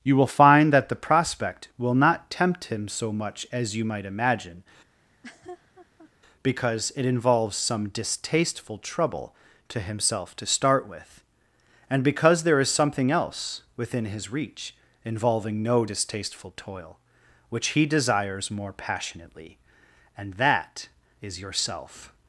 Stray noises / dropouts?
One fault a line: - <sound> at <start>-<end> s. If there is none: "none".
- laugh at 5.0-6.1 s